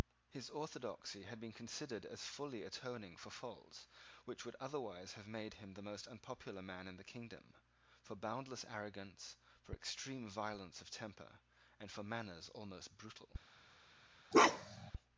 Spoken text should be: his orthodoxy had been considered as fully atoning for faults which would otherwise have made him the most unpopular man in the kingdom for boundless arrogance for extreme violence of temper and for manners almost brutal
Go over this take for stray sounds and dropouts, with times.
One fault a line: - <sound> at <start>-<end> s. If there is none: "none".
- bark at 14.3-14.9 s